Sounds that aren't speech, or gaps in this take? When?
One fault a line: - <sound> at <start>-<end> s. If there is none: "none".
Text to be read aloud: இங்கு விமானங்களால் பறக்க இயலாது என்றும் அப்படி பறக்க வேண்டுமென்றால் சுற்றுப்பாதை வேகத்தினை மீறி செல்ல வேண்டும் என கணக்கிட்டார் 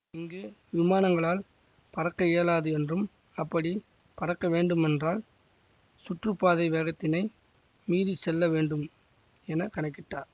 none